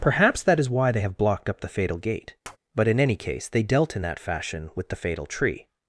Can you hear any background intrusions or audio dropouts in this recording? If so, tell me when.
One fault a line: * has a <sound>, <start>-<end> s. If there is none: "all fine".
* has a tap, 2.4-2.6 s